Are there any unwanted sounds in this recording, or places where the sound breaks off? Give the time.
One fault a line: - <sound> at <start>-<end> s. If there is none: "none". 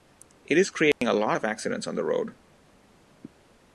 - dropout at 0.9-1.0 s